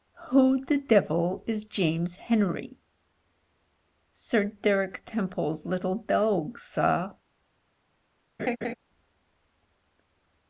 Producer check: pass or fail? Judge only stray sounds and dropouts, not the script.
fail